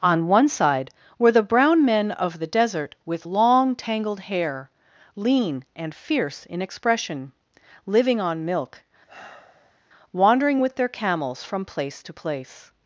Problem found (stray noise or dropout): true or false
true